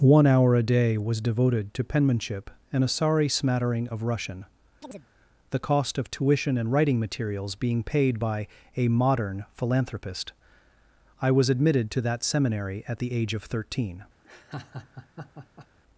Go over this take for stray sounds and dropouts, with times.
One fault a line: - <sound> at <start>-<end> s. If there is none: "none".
- chirp at 4.8-5.1 s
- laugh at 14.2-15.7 s